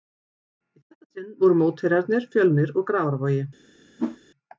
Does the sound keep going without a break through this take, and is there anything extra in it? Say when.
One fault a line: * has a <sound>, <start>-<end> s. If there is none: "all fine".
* has a whoosh, 4.0-4.2 s